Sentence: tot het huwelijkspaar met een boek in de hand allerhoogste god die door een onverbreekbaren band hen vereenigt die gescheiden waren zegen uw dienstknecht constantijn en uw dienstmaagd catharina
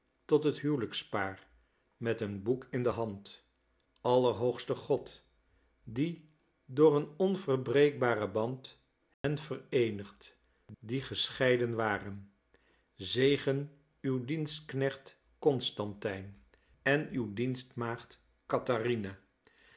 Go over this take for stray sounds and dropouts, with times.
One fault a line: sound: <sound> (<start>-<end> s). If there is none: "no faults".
sound: dropout (9.1-9.2 s)